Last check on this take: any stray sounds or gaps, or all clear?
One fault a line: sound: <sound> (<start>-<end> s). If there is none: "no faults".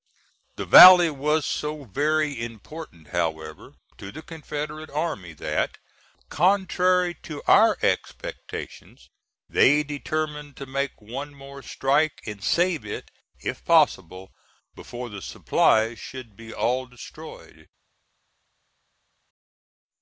no faults